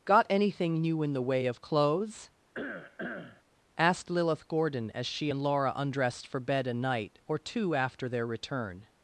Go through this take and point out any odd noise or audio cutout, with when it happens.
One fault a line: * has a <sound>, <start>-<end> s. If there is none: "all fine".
* has a cough, 2.5-3.4 s